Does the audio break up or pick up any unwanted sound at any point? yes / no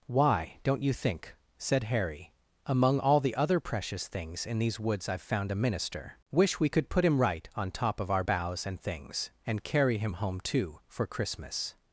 no